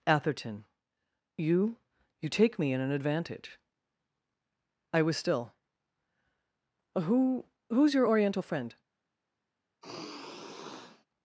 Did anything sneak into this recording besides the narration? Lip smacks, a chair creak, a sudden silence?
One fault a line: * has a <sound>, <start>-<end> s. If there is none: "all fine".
* has a sigh, 9.8-11.1 s